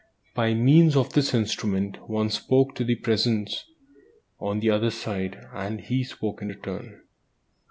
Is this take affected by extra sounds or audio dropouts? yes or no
no